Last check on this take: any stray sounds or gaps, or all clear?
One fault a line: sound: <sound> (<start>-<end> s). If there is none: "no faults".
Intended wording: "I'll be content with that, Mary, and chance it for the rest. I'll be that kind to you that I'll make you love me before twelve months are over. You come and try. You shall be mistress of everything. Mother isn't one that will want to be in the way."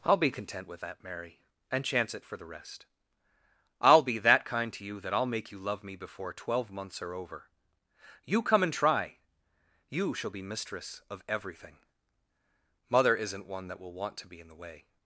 no faults